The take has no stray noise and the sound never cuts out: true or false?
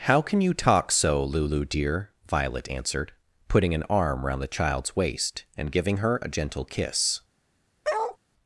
false